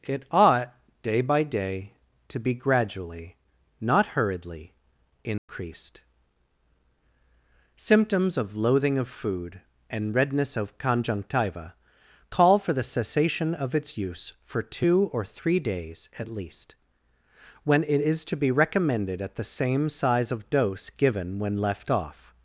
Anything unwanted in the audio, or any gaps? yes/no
yes